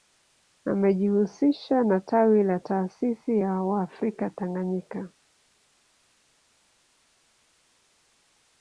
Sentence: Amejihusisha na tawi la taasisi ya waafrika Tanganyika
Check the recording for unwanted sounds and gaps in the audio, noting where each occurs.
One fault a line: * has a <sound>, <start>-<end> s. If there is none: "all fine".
all fine